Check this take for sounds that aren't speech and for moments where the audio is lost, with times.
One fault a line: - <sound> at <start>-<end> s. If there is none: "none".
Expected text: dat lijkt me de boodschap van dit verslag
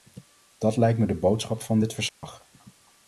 - dropout at 2.1-2.2 s